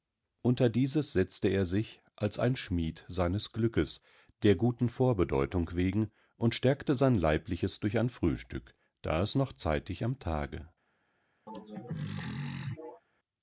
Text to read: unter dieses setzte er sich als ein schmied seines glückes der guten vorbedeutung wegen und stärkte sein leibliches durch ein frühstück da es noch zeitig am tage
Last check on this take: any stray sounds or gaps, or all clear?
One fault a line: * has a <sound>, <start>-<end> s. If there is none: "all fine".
* has a throat clearing, 11.5-13.0 s